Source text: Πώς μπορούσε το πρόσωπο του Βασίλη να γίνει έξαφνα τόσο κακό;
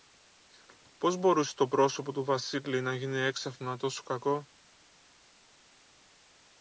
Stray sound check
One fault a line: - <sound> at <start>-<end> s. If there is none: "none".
none